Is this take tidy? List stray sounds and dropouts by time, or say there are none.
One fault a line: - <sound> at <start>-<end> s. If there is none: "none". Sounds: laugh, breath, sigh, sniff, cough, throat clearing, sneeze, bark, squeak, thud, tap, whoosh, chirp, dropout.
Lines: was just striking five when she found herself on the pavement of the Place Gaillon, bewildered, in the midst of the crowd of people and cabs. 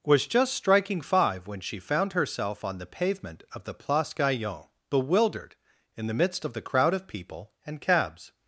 none